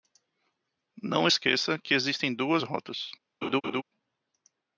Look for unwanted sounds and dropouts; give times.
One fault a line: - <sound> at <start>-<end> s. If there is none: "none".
- laugh at 3.4-3.8 s